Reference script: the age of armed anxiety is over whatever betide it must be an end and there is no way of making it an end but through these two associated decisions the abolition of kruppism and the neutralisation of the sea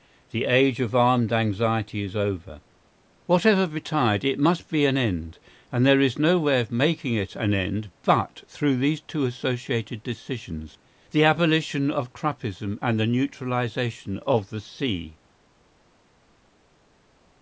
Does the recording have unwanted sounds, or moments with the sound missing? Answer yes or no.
no